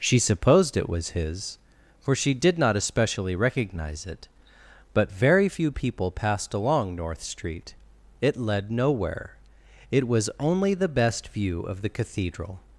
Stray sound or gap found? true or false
false